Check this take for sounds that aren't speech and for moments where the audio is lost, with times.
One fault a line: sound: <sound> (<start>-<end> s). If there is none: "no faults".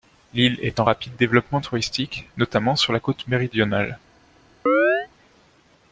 sound: chirp (4.7-5.1 s)